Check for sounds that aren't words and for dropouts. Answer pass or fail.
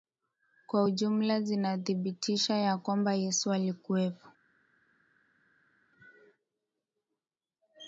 pass